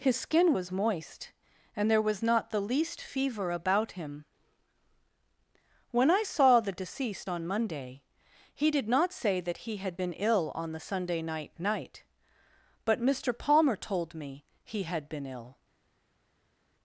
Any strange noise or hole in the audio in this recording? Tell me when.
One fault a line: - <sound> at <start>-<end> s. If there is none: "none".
none